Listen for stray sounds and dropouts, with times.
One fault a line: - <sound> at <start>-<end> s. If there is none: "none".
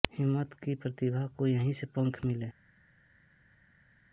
none